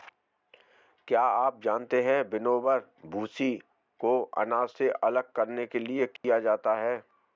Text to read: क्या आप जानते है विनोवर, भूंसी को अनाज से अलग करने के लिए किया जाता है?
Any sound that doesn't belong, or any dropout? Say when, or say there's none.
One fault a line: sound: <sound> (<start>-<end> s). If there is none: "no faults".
sound: dropout (6.2-6.2 s)